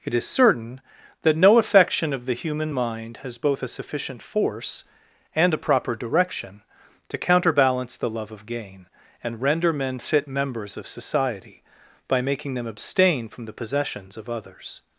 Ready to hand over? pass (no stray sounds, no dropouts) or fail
pass